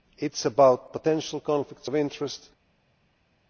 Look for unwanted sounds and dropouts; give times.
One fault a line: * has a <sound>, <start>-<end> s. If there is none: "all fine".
all fine